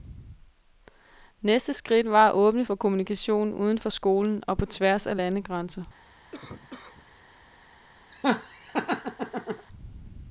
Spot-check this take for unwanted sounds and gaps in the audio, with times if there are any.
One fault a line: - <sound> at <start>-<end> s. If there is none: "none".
- cough at 6.3-7.1 s
- laugh at 8.1-9.7 s